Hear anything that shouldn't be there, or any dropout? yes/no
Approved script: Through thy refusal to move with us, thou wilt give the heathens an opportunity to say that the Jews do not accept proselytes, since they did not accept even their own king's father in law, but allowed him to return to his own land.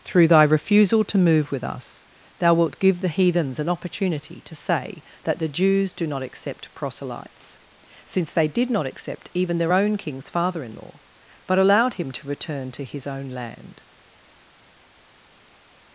no